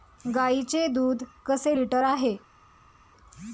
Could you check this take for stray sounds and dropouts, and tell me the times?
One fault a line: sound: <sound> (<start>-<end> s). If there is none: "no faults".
no faults